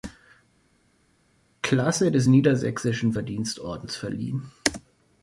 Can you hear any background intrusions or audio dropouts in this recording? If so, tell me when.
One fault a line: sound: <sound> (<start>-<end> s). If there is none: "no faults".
no faults